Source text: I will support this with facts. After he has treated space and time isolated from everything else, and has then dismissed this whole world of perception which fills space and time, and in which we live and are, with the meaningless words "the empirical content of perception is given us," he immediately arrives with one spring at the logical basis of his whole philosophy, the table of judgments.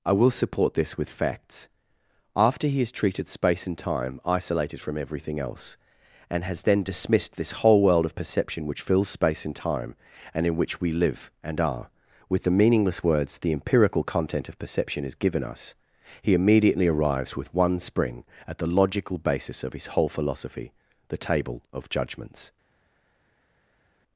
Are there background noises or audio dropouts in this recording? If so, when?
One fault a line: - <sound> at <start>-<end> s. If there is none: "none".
none